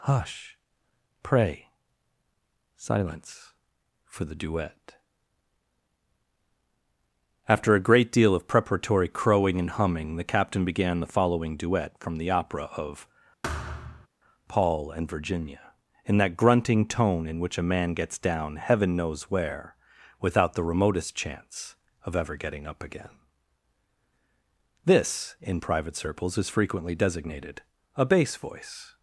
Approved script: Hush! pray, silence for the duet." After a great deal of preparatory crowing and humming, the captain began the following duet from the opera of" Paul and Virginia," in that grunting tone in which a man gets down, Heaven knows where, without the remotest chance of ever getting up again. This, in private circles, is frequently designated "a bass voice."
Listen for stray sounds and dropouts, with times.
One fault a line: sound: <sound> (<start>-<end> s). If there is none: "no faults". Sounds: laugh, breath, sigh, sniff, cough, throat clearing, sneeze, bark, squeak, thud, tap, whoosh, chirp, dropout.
sound: thud (13.4-14.1 s)